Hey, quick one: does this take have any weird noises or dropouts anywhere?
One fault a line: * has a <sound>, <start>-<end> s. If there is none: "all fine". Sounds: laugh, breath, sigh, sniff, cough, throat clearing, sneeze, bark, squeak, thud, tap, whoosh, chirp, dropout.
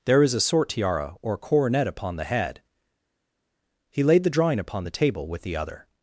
all fine